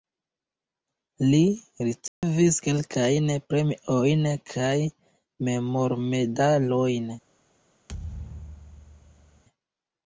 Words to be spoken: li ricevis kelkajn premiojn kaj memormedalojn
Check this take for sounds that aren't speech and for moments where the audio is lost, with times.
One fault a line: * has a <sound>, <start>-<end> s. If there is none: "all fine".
* has a dropout, 2.1-2.2 s
* has a thud, 7.9-9.4 s